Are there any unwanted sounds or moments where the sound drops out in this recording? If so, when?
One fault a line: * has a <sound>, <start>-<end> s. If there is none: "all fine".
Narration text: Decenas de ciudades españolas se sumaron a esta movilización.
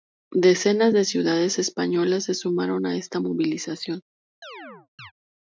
* has a chirp, 4.4-5.1 s